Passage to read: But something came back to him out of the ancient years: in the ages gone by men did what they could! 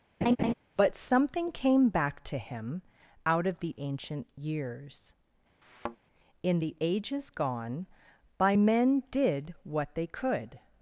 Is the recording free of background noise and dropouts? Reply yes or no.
no